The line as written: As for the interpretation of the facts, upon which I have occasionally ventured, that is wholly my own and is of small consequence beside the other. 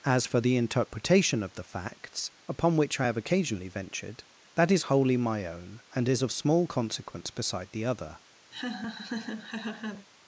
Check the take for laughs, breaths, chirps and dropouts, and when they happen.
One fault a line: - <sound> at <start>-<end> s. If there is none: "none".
- laugh at 8.5-10.1 s